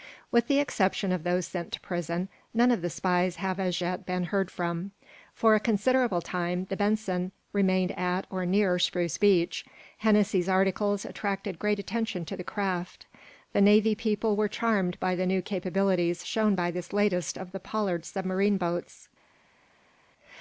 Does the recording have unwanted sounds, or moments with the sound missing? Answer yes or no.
no